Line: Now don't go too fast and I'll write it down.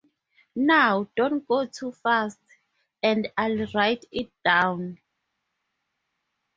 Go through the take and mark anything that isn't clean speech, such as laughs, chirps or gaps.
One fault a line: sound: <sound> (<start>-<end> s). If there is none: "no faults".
no faults